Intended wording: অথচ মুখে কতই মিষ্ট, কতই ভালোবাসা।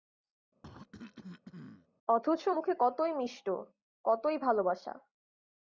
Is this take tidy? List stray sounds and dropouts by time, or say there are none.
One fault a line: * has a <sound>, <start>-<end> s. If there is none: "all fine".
* has a cough, 0.6-1.9 s